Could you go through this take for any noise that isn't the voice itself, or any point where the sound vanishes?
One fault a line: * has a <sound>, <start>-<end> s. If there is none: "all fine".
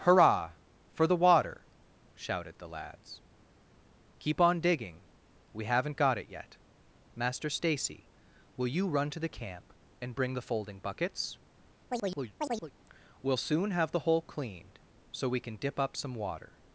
* has a chirp, 11.9-12.7 s